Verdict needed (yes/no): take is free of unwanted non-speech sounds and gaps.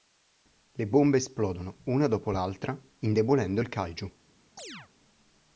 no